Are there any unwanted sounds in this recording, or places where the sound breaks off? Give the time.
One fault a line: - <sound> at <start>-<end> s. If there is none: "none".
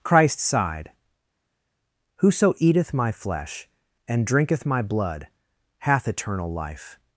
none